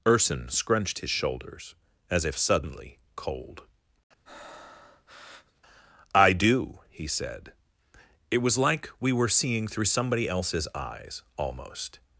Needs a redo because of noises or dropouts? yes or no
yes